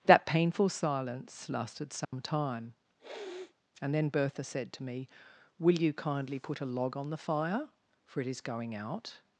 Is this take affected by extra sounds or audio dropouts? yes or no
yes